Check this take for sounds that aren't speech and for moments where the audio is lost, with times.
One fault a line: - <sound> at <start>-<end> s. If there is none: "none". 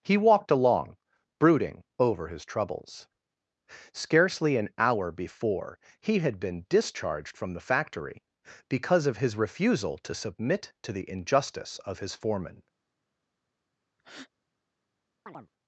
- breath at 14.0-14.3 s
- chirp at 15.3-15.5 s